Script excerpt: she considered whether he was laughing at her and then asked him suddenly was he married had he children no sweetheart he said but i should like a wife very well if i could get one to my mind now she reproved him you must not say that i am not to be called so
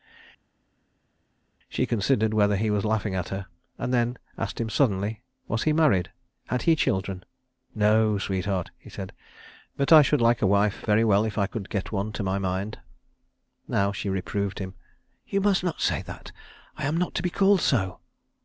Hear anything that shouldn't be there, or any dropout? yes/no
no